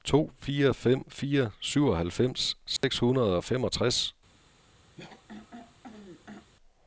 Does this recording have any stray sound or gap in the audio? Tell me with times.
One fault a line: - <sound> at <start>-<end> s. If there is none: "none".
- dropout at 2.8-2.8 s
- throat clearing at 5.0-6.5 s